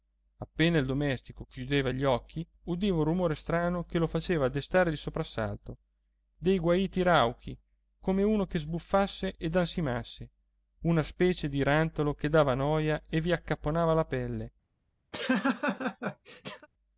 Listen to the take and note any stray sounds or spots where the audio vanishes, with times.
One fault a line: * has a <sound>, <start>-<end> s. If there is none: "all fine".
* has a laugh, 15.1-16.7 s